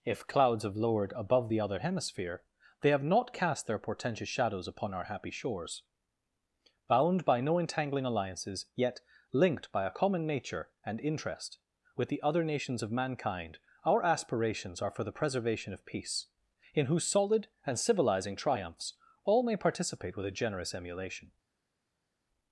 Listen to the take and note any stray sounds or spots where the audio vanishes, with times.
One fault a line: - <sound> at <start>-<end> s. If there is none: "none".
none